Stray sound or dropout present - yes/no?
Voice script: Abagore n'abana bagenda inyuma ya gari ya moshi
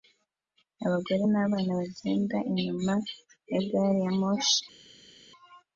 no